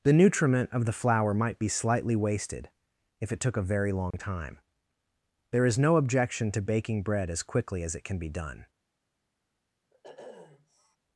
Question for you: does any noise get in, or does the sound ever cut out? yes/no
yes